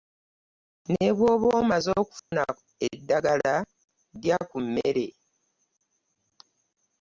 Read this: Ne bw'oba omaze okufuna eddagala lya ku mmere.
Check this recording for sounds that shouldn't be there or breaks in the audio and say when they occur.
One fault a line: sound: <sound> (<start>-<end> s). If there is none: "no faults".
sound: dropout (2.2-2.3 s)